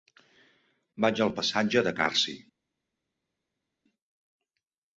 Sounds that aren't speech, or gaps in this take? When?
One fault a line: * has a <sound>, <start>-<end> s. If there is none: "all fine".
all fine